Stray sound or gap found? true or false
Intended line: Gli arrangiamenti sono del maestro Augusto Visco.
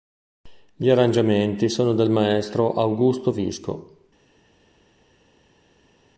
false